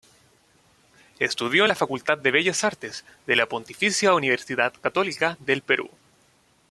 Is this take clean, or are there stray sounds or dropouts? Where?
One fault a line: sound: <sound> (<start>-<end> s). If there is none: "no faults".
no faults